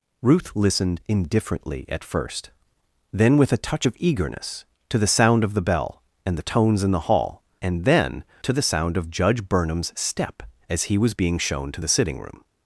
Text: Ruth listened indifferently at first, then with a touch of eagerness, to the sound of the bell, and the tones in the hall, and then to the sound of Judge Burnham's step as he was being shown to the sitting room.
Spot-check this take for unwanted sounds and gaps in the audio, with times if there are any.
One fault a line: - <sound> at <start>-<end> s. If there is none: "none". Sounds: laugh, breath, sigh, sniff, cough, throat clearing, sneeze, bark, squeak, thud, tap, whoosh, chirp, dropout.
none